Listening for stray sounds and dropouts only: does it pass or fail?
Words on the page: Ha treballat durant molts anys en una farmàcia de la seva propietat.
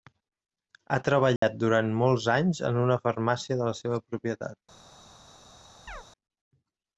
fail